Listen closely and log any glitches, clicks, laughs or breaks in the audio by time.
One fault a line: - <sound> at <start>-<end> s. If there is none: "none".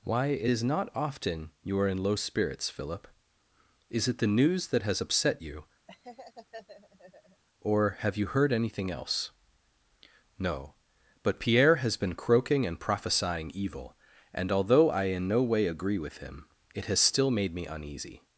- laugh at 5.9-7.4 s